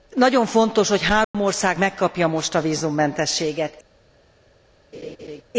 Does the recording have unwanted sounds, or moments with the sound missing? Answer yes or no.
yes